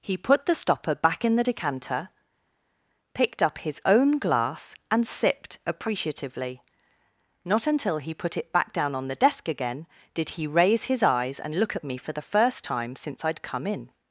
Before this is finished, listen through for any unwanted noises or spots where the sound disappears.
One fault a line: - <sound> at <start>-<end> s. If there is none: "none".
none